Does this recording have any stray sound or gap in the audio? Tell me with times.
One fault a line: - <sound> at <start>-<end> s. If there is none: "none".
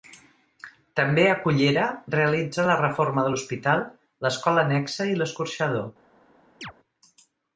- chirp at 6.6-6.7 s